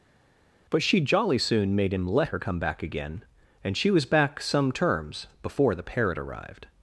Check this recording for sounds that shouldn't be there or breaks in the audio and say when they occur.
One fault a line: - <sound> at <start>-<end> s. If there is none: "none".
none